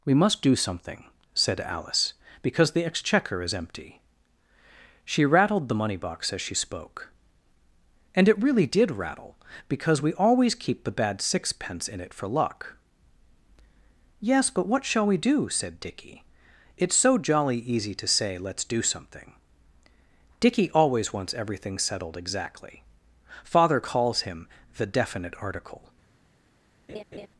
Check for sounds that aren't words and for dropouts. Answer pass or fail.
fail